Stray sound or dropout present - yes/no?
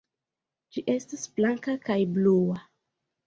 no